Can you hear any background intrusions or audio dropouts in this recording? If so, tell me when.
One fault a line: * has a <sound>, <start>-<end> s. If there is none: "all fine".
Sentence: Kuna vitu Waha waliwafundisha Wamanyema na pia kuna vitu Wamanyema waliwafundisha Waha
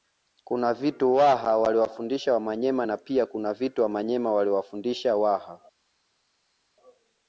all fine